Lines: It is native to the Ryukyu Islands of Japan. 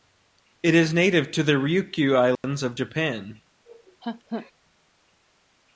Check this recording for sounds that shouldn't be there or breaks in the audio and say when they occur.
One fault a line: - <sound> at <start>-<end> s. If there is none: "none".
- dropout at 2.4-2.4 s
- laugh at 3.7-4.5 s